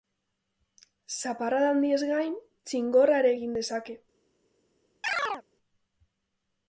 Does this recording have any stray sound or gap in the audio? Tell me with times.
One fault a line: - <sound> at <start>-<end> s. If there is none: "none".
- chirp at 5.0-5.4 s